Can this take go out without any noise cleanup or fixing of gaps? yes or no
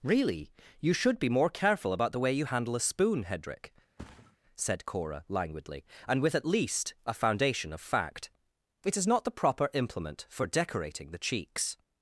no